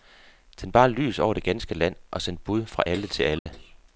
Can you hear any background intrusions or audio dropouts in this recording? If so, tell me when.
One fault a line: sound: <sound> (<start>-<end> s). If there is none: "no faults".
sound: dropout (3.4-3.5 s)